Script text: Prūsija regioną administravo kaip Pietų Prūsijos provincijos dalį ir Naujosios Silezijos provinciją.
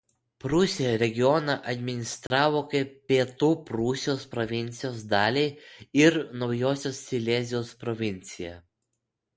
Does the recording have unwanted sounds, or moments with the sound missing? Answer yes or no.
yes